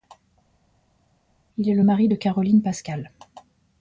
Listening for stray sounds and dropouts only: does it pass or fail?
pass